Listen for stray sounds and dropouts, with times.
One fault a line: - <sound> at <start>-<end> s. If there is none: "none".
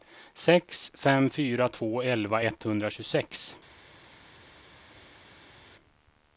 none